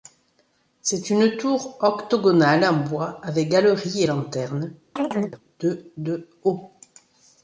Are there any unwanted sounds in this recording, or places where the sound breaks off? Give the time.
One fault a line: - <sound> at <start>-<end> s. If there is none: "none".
- chirp at 5.0-5.4 s